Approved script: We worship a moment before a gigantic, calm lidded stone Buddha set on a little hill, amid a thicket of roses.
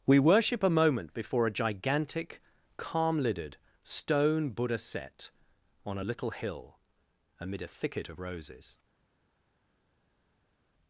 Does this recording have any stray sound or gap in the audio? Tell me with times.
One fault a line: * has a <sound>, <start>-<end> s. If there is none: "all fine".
all fine